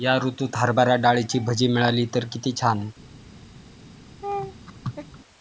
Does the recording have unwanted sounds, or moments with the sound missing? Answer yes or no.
yes